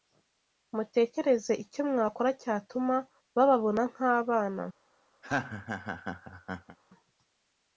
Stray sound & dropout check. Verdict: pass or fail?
fail